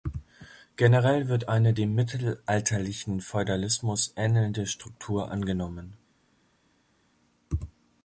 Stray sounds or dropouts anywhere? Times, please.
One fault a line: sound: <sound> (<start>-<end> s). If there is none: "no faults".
no faults